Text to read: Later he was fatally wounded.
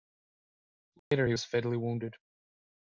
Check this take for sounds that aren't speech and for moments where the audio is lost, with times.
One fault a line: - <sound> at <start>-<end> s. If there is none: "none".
- dropout at 1.0-1.1 s